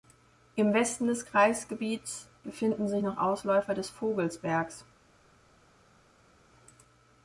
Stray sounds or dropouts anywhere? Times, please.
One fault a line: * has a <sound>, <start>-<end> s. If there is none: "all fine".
all fine